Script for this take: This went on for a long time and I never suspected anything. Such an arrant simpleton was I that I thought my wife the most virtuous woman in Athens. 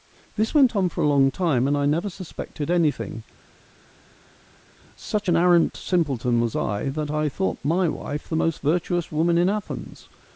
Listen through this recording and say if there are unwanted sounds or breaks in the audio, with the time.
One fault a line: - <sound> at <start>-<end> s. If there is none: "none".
none